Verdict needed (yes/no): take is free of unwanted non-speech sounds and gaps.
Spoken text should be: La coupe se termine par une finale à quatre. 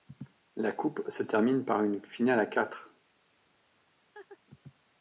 no